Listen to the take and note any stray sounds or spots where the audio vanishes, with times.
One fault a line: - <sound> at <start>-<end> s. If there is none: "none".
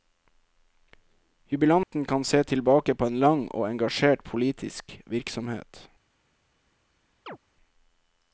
- dropout at 1.8-1.9 s
- chirp at 7.3-7.4 s